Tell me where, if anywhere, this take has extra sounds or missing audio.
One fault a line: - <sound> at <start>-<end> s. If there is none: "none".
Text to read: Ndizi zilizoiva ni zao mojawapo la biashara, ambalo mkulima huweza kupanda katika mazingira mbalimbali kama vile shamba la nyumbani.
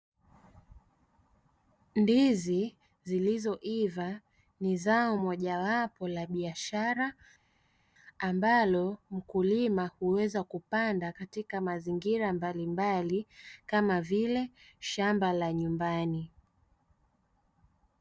none